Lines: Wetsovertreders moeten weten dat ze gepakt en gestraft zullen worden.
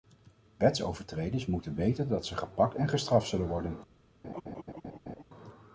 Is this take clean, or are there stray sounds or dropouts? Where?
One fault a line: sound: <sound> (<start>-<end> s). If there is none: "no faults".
sound: laugh (4.2-5.2 s)